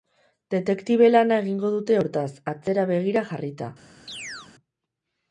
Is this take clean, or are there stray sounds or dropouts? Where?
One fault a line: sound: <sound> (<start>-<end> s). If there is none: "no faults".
sound: chirp (4.1-4.5 s)